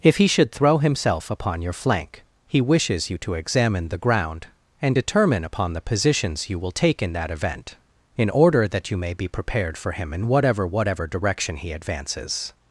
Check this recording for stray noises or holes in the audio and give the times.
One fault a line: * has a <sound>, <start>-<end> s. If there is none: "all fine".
all fine